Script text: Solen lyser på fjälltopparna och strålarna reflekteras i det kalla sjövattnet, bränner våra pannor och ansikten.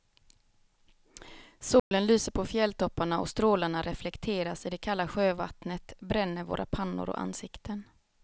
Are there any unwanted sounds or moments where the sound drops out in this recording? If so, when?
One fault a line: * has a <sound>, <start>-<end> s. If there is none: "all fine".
* has a dropout, 1.8-1.9 s